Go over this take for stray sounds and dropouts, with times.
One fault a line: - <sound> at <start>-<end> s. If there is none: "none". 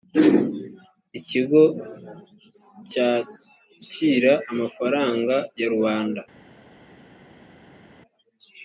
none